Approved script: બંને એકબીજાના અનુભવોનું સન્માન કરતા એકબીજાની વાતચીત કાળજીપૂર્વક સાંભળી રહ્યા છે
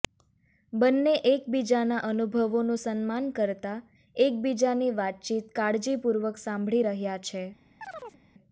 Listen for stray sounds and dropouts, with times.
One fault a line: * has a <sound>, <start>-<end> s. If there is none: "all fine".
* has a chirp, 7.8-8.2 s